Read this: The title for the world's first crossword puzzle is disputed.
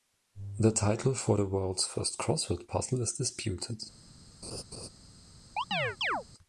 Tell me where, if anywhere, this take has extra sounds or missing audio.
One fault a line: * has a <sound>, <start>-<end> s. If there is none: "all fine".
* has a laugh, 4.4-4.9 s
* has a chirp, 5.6-6.2 s